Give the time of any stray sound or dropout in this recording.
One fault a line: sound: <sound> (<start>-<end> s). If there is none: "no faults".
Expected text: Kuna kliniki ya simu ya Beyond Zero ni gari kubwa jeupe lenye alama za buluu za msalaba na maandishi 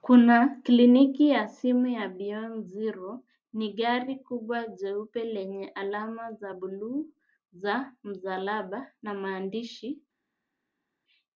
no faults